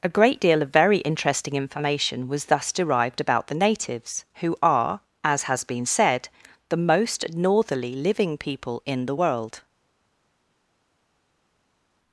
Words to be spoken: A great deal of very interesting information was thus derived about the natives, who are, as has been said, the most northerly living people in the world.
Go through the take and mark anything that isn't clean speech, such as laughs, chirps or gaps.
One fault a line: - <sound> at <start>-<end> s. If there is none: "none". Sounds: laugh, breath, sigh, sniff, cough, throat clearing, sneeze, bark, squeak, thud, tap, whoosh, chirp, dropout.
none